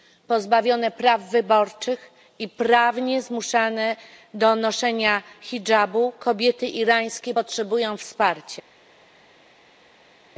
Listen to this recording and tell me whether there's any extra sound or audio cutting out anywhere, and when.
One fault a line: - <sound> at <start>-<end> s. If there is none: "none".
none